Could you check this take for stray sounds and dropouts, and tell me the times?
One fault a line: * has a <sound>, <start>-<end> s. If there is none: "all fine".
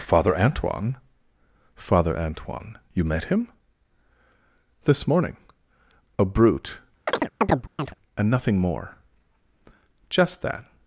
* has a chirp, 7.1-7.9 s